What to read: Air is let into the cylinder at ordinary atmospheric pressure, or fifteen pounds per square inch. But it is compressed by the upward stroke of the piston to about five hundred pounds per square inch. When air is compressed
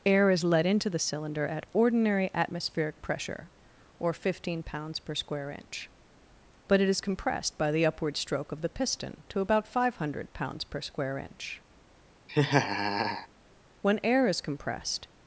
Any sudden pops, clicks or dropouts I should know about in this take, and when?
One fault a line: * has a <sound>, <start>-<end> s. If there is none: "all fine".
* has a laugh, 12.3-13.3 s